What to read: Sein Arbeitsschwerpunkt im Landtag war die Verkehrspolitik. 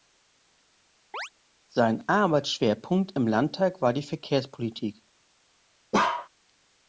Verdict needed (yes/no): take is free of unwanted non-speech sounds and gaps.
no